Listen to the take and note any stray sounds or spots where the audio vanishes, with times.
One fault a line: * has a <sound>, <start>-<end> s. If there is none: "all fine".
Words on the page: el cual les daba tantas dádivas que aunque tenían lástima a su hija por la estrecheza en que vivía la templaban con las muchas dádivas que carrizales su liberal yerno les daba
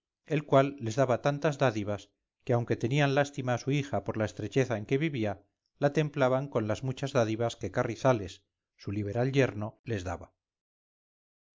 all fine